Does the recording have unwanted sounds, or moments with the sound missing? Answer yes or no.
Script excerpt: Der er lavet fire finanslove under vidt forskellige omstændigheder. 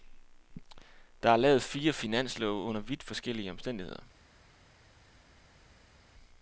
no